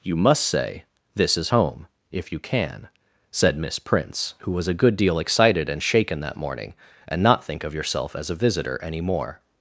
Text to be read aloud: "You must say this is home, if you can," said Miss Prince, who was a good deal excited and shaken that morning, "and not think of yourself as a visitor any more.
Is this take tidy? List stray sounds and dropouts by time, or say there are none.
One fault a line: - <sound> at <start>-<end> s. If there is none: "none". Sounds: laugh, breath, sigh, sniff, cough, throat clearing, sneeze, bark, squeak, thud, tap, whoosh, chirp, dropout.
none